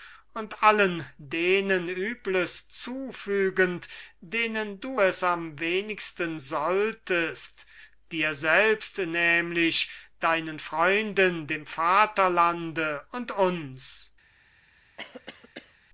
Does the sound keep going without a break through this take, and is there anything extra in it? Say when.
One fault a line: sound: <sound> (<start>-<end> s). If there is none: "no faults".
sound: cough (15.0-15.8 s)